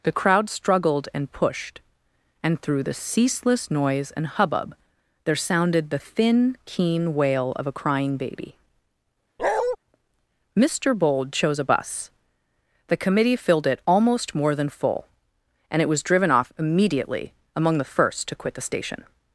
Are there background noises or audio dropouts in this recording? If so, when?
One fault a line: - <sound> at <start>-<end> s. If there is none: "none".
- bark at 9.4-9.8 s